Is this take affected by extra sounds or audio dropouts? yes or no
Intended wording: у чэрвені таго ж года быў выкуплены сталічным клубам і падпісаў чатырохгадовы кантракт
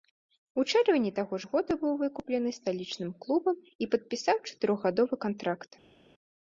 no